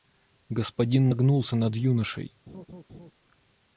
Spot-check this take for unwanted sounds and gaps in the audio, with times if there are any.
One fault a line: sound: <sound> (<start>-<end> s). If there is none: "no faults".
sound: laugh (2.5-3.1 s)